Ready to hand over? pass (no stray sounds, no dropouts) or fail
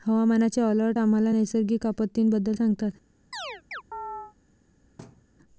fail